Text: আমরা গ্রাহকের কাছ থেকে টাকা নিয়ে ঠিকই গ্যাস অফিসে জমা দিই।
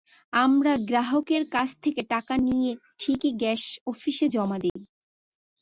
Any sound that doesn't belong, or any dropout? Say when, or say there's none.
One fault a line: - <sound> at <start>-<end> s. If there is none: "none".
- dropout at 4.7-4.8 s